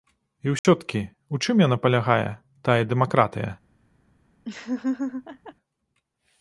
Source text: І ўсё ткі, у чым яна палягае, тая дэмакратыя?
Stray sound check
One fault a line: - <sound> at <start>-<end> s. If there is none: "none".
- dropout at 0.6-0.6 s
- laugh at 4.4-5.5 s